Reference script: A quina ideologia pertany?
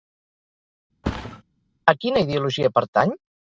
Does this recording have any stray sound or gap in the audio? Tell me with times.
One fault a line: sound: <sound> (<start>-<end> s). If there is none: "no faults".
sound: thud (1.0-1.4 s)